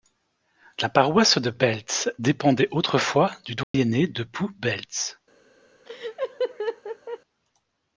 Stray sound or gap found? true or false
true